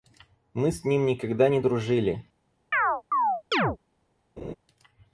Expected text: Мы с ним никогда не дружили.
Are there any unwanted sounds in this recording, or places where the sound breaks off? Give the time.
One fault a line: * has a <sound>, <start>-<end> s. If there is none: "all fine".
* has a chirp, 2.7-3.8 s
* has a laugh, 4.4-4.5 s